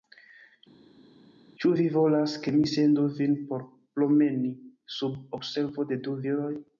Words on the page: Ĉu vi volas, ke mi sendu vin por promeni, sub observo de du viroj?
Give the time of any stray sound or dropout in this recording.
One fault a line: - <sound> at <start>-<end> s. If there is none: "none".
none